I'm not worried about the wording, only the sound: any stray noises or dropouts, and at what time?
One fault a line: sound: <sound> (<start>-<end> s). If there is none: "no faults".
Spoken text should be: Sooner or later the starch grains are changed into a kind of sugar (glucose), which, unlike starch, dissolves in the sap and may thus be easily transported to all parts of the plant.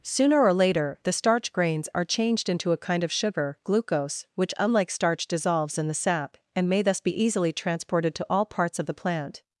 no faults